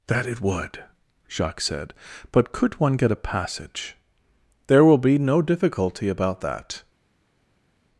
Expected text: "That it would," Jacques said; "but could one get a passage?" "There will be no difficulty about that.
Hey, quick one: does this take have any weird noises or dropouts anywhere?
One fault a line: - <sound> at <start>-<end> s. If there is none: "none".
none